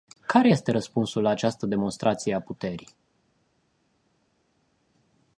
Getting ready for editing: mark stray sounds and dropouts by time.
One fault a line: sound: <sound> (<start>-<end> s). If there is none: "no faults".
no faults